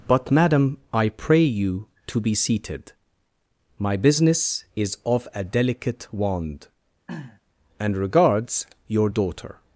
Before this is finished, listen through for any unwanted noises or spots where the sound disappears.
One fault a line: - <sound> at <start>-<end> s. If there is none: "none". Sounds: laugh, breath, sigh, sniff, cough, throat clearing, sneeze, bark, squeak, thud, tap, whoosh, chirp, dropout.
- throat clearing at 7.1-7.4 s